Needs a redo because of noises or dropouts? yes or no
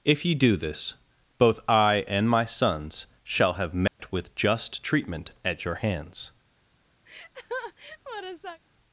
yes